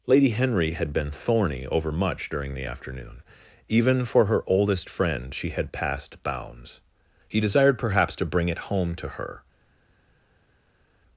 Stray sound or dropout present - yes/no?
no